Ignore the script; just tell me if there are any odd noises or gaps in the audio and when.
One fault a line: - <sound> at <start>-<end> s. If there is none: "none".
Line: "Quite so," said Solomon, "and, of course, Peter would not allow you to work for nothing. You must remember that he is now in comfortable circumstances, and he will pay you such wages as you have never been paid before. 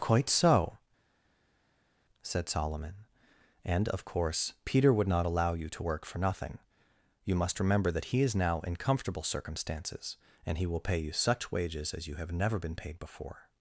none